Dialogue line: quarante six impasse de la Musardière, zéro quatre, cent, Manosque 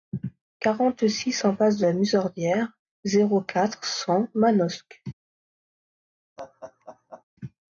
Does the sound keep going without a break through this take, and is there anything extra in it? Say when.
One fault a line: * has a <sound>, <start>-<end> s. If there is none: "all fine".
* has a laugh, 6.4-7.2 s